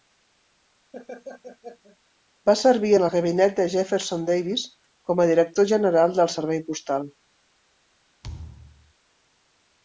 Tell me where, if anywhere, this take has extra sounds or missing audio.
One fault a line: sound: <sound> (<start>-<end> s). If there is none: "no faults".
sound: laugh (0.9-2.0 s)
sound: thud (8.2-8.9 s)